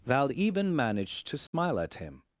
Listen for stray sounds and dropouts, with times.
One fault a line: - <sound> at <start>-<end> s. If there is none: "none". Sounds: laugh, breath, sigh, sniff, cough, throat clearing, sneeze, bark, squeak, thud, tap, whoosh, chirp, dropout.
- dropout at 1.5-1.5 s